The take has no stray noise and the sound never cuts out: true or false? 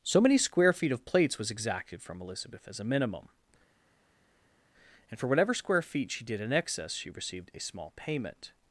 true